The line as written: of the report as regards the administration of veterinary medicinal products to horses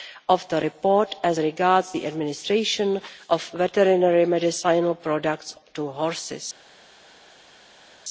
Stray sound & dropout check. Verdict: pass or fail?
pass